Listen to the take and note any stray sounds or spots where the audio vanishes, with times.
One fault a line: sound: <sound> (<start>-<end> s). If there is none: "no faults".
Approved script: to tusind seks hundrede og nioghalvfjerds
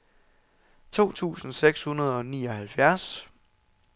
no faults